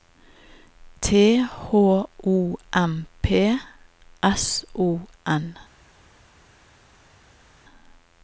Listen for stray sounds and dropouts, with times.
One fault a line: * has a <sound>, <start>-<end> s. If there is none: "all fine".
all fine